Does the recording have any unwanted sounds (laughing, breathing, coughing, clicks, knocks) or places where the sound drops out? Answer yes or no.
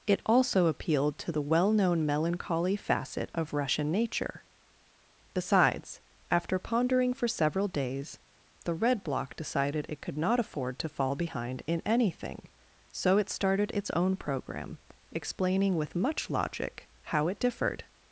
no